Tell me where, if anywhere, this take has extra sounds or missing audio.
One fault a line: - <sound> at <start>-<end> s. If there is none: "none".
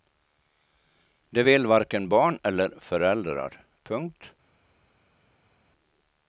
none